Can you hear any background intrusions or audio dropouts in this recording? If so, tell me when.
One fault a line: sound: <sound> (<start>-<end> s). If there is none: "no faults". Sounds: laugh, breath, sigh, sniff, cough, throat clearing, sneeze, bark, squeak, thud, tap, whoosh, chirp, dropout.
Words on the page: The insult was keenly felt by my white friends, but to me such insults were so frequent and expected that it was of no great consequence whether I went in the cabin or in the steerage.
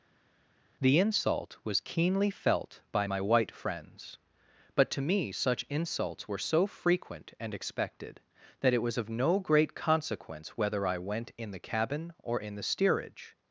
no faults